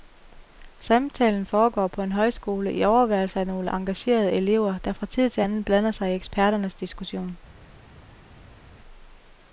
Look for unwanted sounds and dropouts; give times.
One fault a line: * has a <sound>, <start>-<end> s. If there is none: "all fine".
all fine